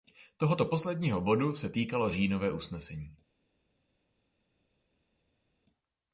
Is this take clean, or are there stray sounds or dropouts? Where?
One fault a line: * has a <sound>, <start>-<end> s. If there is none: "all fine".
all fine